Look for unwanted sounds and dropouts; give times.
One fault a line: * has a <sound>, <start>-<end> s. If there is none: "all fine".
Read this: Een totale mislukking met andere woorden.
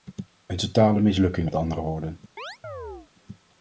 * has a chirp, 2.4-3.1 s